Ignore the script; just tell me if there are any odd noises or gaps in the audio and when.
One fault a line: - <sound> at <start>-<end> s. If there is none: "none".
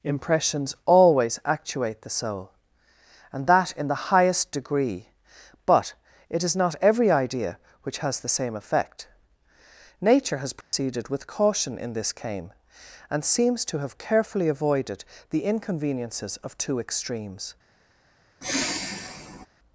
- dropout at 10.6-10.7 s
- sigh at 18.4-19.5 s